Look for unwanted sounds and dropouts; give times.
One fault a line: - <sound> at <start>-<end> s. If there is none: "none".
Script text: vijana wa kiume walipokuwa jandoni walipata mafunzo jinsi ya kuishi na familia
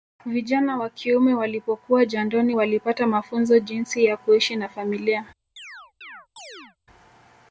- chirp at 5.6-6.8 s